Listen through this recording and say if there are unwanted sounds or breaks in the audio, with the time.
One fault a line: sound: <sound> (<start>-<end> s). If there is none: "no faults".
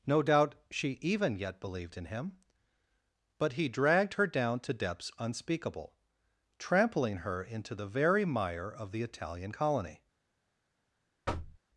sound: thud (11.3-11.6 s)